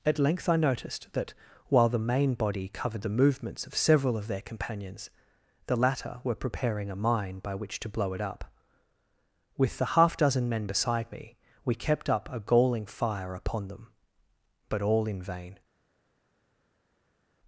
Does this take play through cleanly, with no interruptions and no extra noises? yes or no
yes